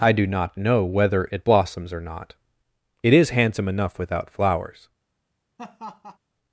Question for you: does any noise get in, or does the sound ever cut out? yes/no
yes